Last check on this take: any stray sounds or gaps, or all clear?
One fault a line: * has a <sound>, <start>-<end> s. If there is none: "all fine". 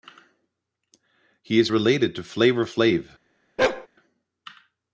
* has a bark, 3.6-3.9 s